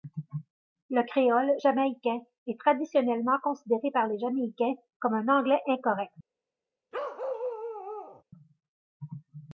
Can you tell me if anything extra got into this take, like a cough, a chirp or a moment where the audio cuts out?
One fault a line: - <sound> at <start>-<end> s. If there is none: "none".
- bark at 6.9-8.2 s